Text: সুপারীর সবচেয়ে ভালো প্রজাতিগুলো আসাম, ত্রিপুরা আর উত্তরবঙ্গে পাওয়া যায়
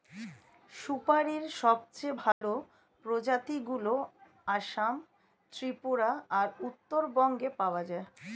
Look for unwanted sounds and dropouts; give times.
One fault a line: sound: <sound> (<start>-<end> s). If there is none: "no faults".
sound: dropout (2.3-2.4 s)